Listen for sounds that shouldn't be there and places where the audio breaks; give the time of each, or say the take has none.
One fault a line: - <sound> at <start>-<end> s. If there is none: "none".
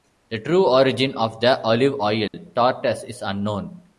- dropout at 2.3-2.3 s